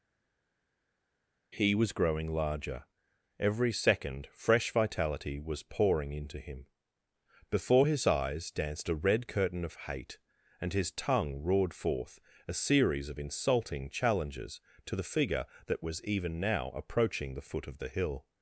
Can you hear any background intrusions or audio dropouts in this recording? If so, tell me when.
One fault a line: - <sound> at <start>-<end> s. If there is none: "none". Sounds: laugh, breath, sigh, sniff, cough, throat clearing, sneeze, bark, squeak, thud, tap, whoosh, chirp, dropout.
none